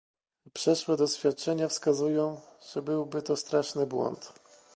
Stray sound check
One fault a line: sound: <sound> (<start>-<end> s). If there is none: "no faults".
no faults